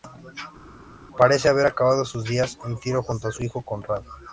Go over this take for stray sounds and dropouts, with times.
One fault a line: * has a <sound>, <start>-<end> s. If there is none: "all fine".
all fine